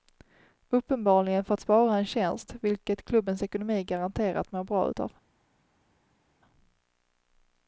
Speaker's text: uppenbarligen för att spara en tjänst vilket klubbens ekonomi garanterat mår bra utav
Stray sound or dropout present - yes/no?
no